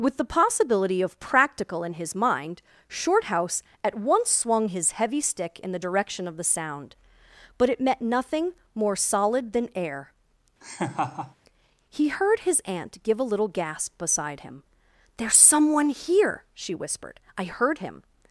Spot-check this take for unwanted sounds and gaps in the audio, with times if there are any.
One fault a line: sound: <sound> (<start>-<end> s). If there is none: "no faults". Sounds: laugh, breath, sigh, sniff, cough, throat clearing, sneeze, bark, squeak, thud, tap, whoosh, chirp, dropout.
sound: laugh (10.6-11.4 s)